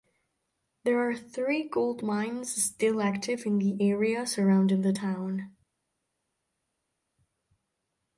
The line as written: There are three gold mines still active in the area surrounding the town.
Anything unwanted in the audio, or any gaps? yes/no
no